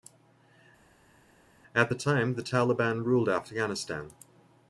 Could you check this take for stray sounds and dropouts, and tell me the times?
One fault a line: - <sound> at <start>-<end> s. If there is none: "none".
none